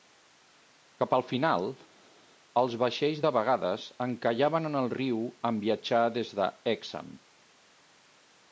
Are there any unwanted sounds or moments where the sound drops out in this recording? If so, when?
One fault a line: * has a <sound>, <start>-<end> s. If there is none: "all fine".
all fine